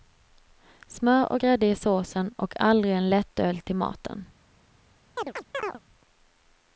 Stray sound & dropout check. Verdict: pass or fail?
fail